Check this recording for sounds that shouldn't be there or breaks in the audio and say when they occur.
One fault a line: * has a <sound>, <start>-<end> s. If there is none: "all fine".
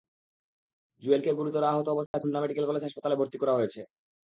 * has a dropout, 2.1-2.1 s